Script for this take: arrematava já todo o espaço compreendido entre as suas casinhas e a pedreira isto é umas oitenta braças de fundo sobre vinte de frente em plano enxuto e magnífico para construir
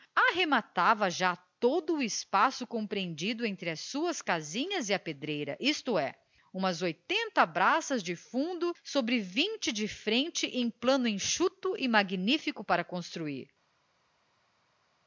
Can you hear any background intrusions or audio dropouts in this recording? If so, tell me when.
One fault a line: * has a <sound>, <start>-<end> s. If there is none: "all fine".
all fine